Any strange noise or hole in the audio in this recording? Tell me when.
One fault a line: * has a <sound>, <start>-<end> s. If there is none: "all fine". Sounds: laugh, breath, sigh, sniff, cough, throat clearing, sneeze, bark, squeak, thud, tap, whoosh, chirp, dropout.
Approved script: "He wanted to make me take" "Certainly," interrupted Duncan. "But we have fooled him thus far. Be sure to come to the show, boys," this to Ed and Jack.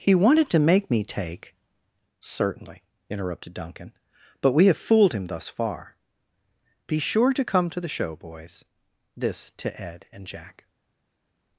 all fine